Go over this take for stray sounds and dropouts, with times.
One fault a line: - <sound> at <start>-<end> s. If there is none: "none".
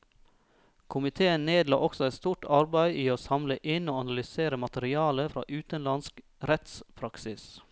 none